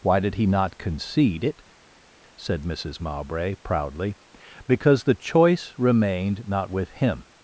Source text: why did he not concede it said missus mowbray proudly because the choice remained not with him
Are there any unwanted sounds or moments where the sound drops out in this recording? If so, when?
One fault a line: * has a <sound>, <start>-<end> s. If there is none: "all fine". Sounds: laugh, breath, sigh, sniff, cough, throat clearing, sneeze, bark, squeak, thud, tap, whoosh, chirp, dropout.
all fine